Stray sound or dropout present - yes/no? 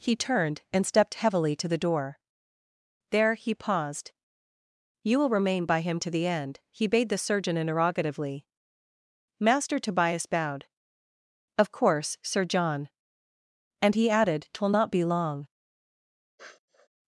yes